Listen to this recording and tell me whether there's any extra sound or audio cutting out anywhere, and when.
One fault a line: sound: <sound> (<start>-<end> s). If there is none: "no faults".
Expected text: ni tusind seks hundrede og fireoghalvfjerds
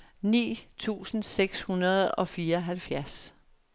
no faults